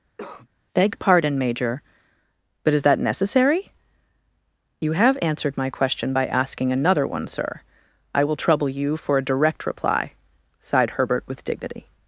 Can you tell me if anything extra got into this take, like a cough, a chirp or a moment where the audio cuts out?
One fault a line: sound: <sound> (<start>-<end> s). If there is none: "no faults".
sound: cough (0.2-0.5 s)